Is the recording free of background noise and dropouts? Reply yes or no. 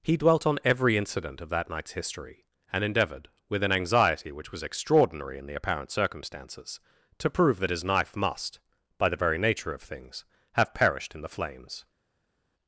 yes